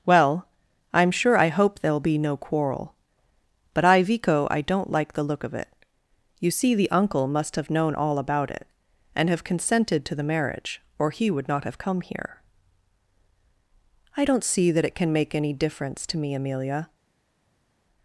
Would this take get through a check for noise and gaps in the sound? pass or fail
pass